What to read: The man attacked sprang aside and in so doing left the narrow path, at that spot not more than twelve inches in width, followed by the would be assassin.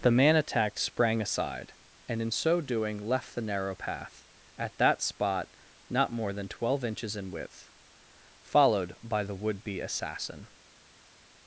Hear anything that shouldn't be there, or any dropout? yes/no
no